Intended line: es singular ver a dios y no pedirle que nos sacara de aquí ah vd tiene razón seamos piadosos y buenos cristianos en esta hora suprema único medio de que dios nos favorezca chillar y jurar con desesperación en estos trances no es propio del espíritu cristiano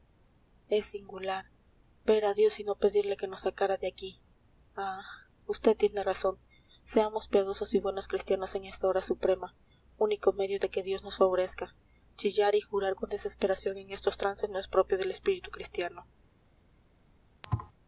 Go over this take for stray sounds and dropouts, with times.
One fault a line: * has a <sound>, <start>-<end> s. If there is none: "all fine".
* has a thud, 17.4-17.7 s